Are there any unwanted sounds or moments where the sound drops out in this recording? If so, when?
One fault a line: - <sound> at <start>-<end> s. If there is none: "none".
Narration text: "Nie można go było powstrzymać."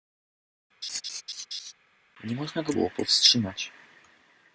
- laugh at 0.8-1.7 s